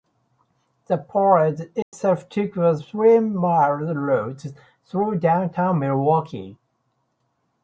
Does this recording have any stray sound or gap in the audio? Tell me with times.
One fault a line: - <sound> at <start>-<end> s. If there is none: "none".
- dropout at 1.8-1.9 s